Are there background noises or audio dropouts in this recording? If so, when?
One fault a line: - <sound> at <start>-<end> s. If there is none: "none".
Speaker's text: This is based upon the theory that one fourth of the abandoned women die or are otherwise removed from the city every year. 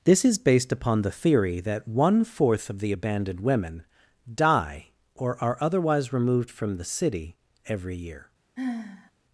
- sigh at 8.6-9.1 s